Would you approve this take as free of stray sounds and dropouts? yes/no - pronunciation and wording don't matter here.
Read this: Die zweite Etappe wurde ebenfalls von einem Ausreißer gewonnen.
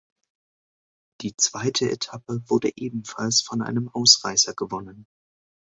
yes